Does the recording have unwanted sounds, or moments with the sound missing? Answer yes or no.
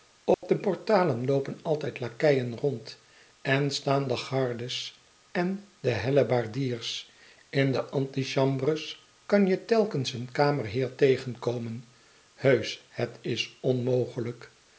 yes